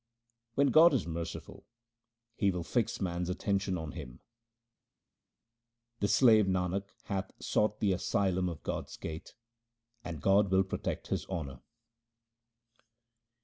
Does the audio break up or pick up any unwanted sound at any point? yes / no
no